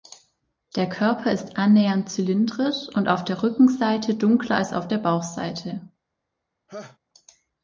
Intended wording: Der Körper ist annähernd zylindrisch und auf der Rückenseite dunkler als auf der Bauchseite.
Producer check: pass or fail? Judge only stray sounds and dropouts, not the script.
fail